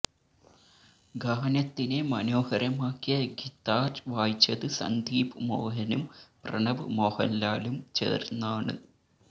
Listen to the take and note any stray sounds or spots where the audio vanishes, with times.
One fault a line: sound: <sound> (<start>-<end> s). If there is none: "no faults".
no faults